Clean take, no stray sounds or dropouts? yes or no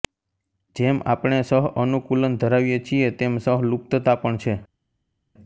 yes